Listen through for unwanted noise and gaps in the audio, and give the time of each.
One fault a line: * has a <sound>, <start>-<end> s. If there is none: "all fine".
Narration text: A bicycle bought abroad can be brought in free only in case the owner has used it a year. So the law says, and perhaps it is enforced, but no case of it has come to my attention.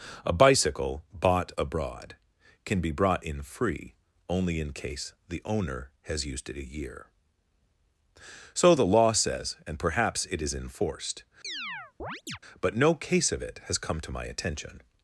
* has a chirp, 11.4-12.4 s